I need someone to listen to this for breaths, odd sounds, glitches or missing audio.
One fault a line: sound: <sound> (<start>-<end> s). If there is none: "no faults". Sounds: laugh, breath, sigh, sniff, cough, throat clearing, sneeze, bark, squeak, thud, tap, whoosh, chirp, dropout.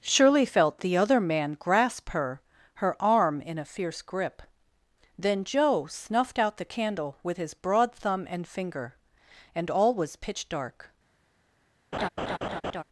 sound: laugh (11.9-12.8 s)